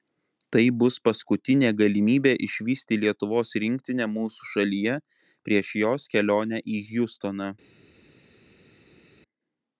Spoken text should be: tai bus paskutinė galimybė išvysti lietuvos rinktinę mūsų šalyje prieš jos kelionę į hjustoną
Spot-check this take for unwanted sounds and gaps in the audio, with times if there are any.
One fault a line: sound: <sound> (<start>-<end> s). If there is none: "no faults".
no faults